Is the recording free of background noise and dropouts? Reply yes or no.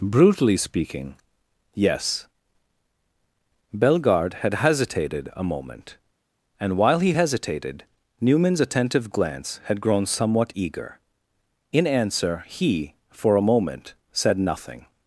yes